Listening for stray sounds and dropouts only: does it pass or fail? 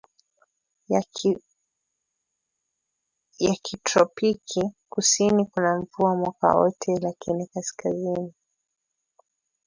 pass